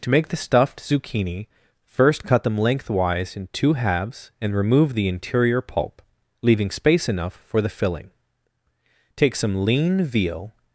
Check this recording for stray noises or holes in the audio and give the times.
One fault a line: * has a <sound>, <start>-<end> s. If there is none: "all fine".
all fine